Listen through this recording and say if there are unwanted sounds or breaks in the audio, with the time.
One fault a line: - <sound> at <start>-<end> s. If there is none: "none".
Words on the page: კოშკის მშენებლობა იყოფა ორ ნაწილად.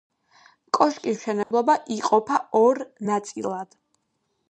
- dropout at 1.4-1.5 s